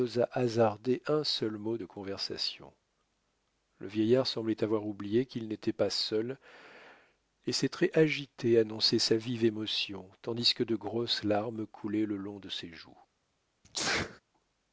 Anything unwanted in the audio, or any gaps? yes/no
yes